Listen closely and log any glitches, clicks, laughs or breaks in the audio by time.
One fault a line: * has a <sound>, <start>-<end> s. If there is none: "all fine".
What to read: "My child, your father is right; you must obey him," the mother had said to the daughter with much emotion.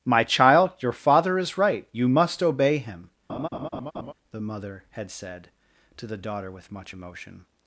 * has a laugh, 3.3-4.1 s